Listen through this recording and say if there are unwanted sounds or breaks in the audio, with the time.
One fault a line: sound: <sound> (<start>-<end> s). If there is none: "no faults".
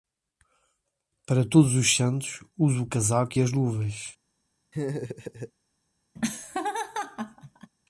sound: laugh (4.7-5.5 s)
sound: laugh (6.2-7.7 s)